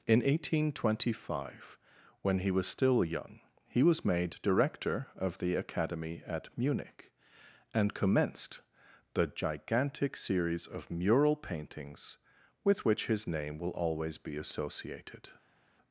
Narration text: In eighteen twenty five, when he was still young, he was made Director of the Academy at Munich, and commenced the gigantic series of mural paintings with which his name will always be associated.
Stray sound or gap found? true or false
false